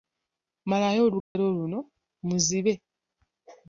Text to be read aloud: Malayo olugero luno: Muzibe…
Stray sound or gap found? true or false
true